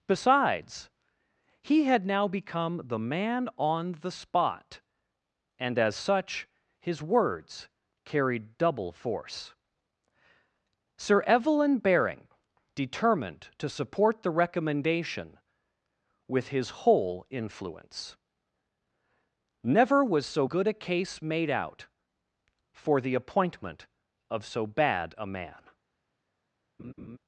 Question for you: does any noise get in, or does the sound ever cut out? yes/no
yes